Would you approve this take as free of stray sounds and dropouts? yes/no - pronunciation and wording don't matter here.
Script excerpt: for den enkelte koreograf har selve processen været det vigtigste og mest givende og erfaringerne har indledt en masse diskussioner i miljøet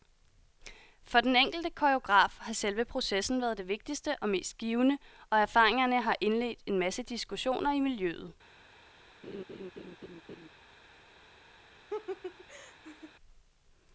no